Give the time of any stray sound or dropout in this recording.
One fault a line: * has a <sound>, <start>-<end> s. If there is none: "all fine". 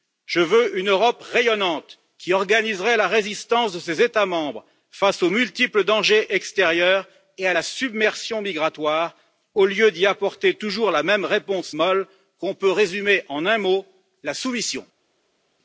all fine